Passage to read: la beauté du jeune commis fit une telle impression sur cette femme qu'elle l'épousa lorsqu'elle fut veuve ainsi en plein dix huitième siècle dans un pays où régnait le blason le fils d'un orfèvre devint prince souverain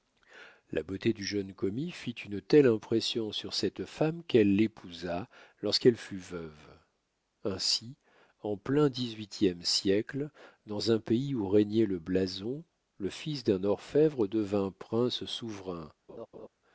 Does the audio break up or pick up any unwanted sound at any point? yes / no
yes